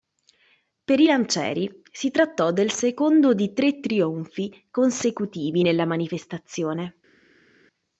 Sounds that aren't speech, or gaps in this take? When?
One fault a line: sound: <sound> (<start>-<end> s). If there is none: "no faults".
no faults